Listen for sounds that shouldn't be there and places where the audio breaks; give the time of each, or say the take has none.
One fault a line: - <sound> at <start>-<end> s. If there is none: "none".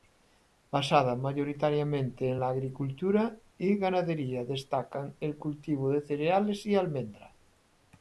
none